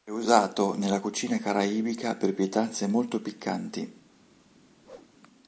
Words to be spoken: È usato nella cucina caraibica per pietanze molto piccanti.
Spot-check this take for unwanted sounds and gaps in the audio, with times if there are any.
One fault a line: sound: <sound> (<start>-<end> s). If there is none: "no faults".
sound: whoosh (4.8-5.1 s)